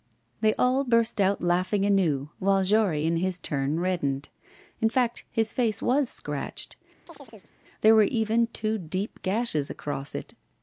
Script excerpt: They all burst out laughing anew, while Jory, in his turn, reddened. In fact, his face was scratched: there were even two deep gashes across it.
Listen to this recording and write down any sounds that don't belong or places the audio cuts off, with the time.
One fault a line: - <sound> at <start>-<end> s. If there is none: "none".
- chirp at 7.1-7.5 s